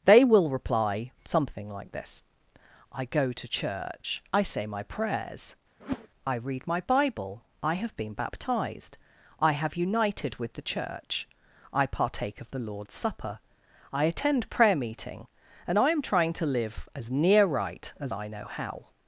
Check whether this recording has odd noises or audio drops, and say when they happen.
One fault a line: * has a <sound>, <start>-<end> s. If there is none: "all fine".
* has a whoosh, 5.8-6.1 s